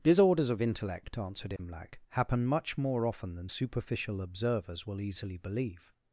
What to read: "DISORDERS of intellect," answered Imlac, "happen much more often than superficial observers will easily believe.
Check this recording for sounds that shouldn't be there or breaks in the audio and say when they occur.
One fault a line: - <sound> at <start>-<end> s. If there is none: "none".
- dropout at 1.6-1.6 s